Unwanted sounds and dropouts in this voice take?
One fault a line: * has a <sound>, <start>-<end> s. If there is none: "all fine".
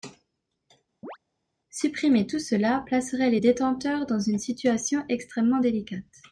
* has a chirp, 1.0-1.2 s